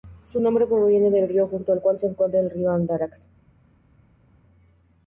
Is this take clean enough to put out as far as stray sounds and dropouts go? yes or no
yes